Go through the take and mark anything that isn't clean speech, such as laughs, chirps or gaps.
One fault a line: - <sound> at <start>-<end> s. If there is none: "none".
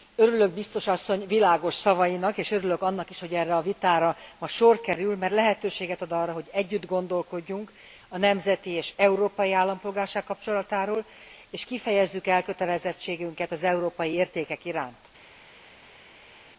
none